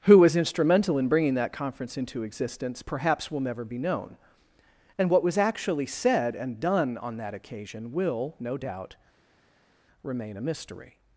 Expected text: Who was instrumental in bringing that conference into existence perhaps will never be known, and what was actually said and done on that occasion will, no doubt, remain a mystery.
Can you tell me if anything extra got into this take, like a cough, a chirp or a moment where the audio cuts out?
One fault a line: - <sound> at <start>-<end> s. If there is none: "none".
none